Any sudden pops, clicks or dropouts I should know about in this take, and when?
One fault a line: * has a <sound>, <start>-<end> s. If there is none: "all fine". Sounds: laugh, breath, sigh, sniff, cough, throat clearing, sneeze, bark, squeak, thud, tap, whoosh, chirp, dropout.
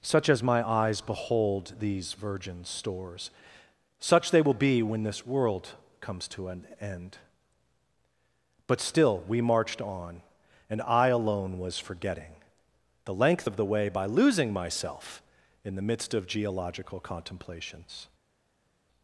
all fine